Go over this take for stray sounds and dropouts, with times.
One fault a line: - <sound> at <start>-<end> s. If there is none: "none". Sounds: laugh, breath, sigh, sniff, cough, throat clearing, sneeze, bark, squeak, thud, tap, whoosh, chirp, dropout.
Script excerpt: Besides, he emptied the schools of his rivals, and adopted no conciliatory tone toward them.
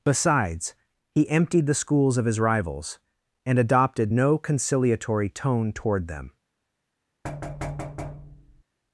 - thud at 7.2-8.6 s